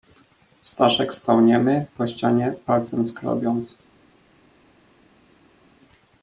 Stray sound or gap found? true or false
false